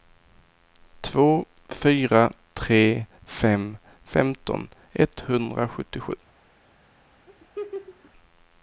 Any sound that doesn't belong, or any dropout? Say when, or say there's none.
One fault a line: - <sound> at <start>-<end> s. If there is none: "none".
- laugh at 7.3-8.1 s